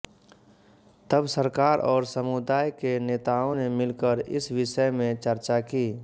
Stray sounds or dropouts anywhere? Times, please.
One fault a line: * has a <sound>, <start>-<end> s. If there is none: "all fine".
all fine